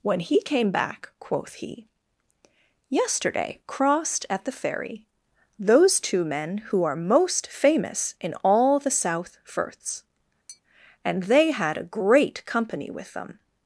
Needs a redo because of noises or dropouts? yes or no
yes